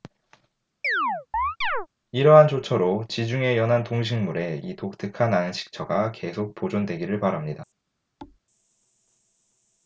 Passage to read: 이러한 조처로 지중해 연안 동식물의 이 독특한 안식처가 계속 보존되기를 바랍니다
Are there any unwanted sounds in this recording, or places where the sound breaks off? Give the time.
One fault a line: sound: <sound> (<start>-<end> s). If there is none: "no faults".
sound: chirp (0.8-1.9 s)
sound: thud (8.2-8.4 s)